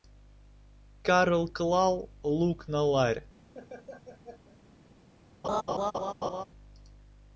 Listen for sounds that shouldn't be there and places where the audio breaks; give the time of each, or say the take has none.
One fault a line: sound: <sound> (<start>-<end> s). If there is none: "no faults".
sound: laugh (3.5-4.6 s)
sound: laugh (5.4-6.4 s)